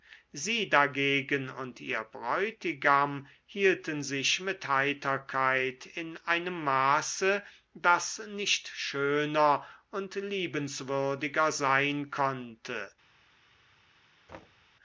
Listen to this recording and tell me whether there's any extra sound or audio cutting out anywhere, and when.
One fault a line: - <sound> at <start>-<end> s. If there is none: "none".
- thud at 14.3-14.7 s